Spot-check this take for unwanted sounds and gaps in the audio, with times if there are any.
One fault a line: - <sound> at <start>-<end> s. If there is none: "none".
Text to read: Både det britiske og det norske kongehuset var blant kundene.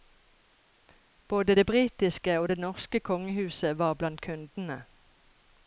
none